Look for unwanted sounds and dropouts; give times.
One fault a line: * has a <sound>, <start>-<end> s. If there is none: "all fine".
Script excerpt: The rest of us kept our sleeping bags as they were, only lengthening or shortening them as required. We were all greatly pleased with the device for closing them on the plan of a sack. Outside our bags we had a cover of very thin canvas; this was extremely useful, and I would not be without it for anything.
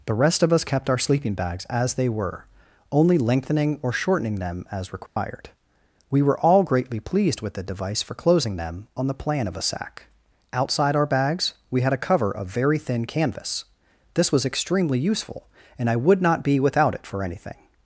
* has a dropout, 5.1-5.2 s